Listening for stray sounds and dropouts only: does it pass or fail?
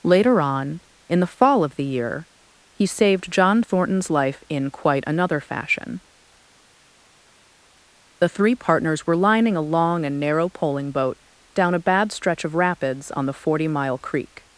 pass